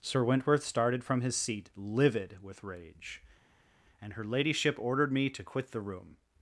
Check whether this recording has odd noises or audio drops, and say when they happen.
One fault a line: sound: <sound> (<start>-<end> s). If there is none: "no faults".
no faults